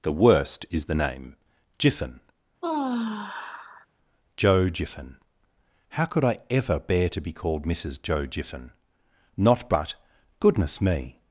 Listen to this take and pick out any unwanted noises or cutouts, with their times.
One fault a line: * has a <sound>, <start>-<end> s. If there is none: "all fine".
* has a sigh, 2.6-3.9 s